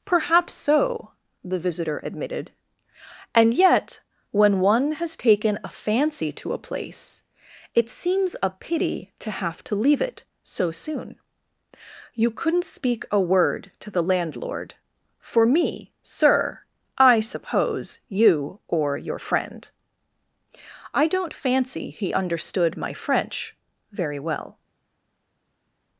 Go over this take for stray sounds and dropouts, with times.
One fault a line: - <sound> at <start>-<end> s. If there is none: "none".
none